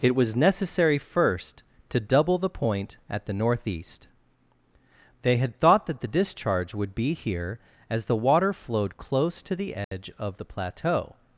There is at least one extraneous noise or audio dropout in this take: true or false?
true